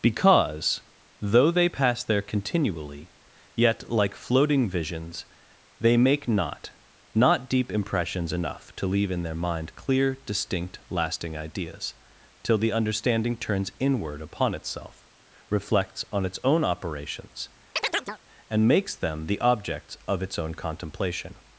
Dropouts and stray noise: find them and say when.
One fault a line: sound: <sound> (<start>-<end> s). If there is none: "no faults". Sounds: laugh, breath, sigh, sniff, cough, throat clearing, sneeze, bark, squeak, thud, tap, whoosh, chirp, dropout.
sound: chirp (17.8-18.2 s)